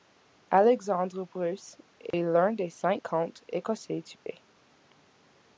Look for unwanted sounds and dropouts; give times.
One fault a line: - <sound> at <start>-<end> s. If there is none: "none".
- dropout at 2.1-2.1 s
- dropout at 4.2-4.3 s